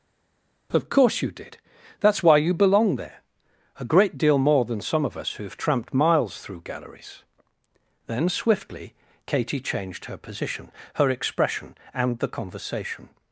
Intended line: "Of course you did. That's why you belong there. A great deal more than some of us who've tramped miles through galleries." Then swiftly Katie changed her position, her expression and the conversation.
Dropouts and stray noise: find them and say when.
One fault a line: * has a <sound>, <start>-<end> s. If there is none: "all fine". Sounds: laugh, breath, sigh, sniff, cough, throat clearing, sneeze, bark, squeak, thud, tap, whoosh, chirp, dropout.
all fine